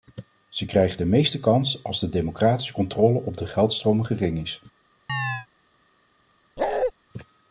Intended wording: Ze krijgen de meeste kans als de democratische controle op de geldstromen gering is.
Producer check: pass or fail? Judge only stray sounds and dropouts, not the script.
fail